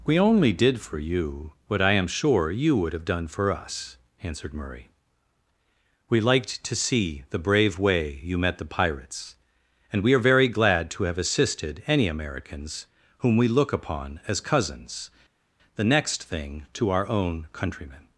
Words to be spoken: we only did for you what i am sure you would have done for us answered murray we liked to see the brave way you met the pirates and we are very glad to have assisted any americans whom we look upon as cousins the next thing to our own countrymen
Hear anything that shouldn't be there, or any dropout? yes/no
no